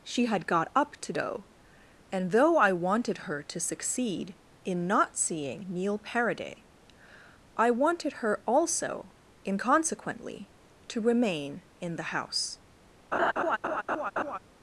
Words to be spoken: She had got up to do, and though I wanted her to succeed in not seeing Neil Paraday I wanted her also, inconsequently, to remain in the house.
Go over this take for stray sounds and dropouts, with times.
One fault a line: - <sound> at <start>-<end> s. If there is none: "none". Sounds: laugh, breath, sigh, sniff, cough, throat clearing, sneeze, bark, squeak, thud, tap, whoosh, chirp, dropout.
- laugh at 13.1-14.4 s